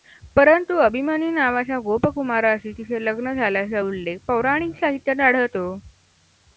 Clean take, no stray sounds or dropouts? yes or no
yes